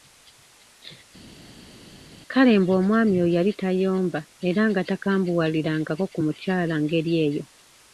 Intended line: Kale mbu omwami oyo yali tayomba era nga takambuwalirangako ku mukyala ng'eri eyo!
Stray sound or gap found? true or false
false